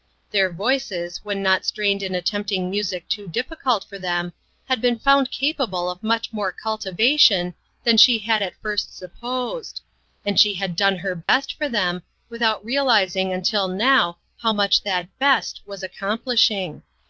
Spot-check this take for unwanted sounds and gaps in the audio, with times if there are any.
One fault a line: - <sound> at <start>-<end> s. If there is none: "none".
- dropout at 11.2-11.3 s